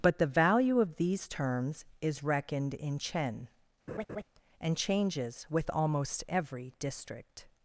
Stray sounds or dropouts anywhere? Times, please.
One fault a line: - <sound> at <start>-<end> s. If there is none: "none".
- laugh at 3.9-4.2 s